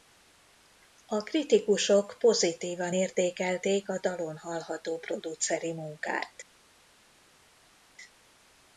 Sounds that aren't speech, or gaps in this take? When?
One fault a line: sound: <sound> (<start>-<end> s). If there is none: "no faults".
no faults